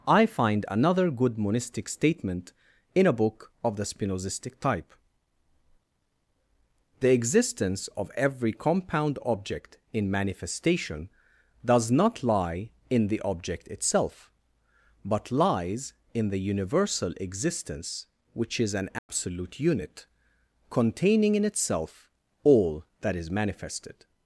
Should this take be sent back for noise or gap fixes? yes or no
yes